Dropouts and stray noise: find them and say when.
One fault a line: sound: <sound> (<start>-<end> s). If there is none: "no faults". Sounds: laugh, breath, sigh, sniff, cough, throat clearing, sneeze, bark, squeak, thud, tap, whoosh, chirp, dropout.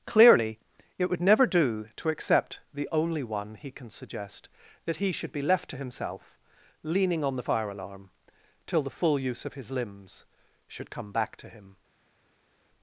no faults